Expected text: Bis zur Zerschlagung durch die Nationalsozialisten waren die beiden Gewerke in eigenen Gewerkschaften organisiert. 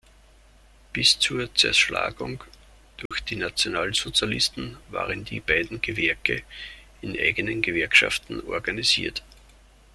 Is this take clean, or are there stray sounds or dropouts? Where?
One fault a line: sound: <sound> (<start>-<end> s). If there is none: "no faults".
sound: dropout (3.1-3.1 s)